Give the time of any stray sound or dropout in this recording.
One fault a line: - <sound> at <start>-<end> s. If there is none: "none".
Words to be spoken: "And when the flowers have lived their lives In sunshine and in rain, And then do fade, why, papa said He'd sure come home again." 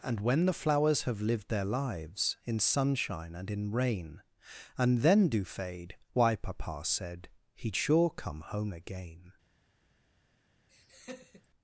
- laugh at 10.7-11.5 s